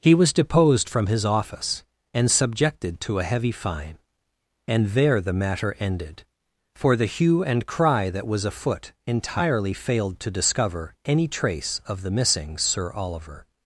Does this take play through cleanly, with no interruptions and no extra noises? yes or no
yes